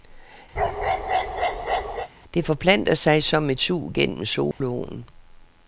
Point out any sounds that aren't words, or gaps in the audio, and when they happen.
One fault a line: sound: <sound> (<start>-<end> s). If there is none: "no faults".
sound: bark (0.6-2.1 s)
sound: dropout (4.5-4.6 s)